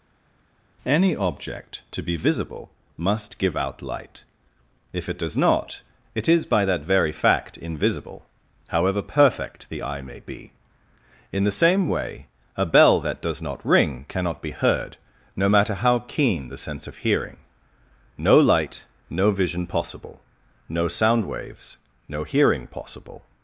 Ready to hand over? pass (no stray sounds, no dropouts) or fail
pass